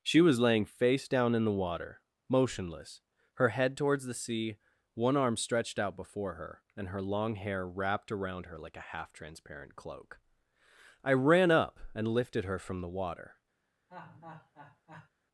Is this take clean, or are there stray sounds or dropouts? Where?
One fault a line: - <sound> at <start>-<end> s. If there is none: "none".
- laugh at 13.9-15.1 s